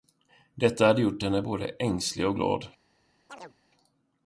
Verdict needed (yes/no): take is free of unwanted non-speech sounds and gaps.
no